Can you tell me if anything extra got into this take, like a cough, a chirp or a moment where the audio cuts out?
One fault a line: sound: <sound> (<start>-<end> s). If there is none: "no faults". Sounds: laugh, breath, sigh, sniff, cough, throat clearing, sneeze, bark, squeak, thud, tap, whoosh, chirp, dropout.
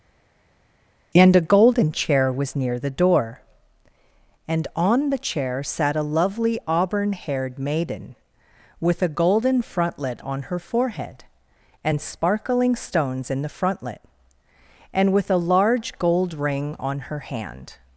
no faults